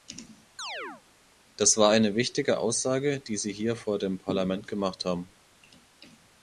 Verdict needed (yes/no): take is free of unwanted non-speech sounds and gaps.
no